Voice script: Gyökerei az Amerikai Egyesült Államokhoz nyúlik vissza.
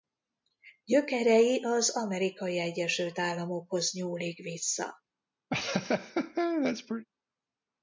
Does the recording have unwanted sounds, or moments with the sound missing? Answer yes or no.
yes